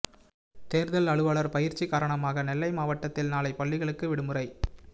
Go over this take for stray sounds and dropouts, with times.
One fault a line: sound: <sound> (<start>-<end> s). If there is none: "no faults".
no faults